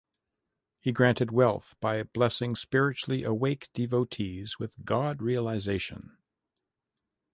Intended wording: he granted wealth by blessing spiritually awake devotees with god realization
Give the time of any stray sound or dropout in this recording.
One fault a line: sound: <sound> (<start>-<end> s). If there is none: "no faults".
no faults